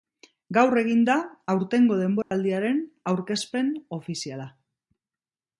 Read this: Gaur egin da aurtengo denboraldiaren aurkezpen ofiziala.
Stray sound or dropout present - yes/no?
yes